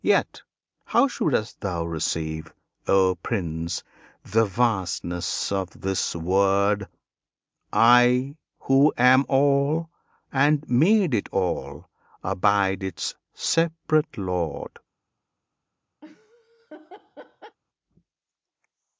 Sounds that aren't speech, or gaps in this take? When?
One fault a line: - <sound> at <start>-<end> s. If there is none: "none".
- laugh at 16.0-17.6 s